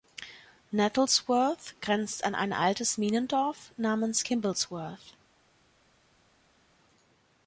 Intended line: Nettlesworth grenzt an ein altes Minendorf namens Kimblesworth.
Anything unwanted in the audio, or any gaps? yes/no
no